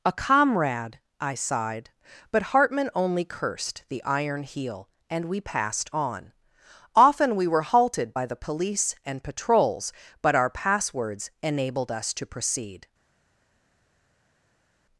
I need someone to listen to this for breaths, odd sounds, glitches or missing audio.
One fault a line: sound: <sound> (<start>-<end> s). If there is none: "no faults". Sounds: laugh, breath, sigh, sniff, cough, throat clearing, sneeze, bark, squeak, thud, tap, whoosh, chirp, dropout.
no faults